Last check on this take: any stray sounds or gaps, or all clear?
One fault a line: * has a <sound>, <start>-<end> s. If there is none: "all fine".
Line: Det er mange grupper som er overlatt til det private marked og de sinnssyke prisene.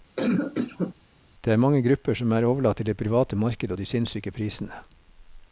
* has a cough, 0.2-0.9 s